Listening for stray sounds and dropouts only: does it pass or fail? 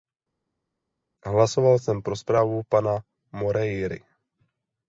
pass